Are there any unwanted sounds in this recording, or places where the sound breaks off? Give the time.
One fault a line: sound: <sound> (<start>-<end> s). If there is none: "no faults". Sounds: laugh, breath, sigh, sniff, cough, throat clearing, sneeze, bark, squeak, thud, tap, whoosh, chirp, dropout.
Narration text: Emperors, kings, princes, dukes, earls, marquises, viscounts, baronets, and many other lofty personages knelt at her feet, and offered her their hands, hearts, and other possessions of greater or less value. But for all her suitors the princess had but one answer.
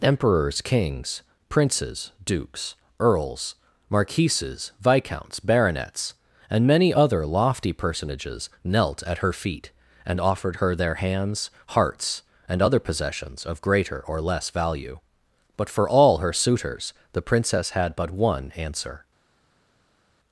no faults